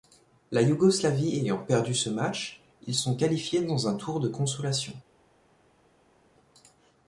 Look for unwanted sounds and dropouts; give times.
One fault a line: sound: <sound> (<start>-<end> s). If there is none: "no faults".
no faults